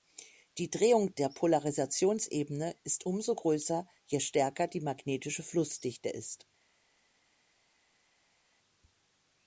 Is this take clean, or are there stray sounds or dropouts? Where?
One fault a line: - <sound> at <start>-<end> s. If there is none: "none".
none